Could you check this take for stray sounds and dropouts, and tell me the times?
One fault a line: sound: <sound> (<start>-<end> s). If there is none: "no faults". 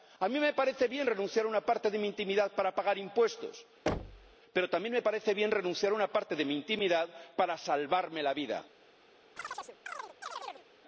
sound: thud (3.9-4.4 s)
sound: chirp (9.4-10.7 s)